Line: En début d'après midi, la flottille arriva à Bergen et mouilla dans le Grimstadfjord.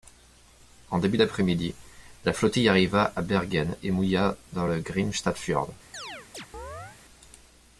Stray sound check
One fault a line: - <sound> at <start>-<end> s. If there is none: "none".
- chirp at 5.9-7.0 s